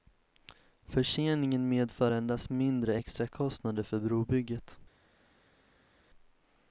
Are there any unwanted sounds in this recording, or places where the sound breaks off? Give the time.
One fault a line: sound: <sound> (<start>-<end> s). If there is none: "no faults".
no faults